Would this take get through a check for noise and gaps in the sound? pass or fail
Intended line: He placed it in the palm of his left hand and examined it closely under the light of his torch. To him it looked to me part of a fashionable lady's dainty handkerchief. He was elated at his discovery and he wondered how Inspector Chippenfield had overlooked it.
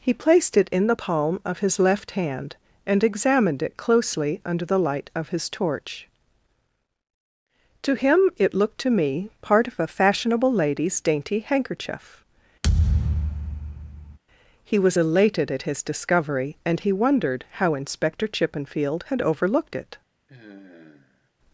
fail